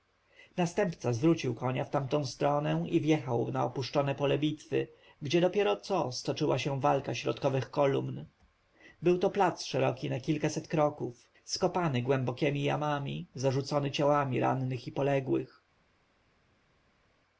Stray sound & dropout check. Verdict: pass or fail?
pass